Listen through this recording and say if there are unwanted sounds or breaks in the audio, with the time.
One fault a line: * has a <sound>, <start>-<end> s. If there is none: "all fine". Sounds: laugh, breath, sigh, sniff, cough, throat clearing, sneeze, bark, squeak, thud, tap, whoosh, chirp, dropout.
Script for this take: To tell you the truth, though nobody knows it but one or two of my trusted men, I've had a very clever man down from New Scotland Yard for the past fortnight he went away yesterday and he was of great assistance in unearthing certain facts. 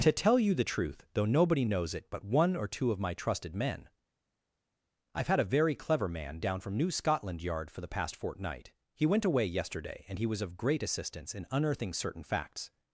all fine